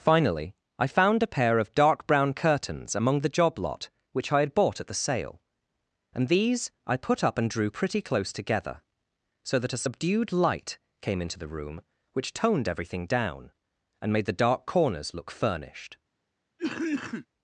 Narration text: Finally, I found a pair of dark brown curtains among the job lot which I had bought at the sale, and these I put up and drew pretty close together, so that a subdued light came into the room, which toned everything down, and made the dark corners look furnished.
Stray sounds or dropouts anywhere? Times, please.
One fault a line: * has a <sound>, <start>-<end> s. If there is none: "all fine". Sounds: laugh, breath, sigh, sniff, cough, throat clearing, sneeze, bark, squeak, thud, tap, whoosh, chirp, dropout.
* has a cough, 16.6-17.3 s